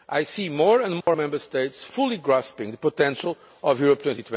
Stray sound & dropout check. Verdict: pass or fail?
fail